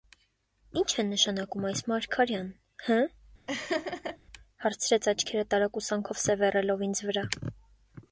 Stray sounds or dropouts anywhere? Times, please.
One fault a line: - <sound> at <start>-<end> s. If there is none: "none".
- laugh at 3.5-4.2 s